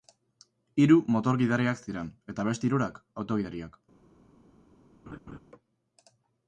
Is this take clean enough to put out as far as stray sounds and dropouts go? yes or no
no